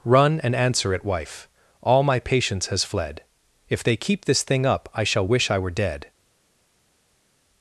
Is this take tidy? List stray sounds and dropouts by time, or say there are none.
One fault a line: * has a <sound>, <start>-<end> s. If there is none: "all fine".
all fine